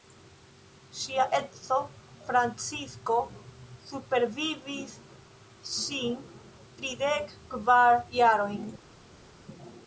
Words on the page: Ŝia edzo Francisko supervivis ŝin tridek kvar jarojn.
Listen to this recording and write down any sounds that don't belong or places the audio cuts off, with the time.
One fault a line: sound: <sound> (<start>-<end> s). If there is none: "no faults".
no faults